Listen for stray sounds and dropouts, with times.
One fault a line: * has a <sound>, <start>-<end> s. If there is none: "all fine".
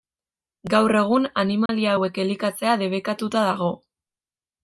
* has a dropout, 1.7-1.7 s